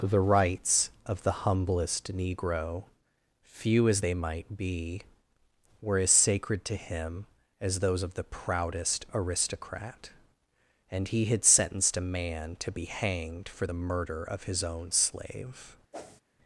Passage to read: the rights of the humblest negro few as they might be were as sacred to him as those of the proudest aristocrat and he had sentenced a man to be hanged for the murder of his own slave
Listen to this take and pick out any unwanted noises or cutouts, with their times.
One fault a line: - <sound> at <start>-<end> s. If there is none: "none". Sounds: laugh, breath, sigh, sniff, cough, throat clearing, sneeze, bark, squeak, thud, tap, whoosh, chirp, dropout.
- whoosh at 15.9-16.2 s